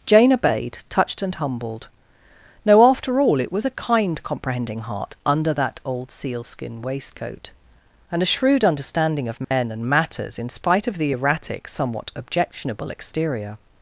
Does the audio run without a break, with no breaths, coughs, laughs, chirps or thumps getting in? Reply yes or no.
no